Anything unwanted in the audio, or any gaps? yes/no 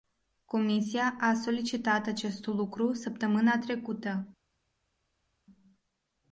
no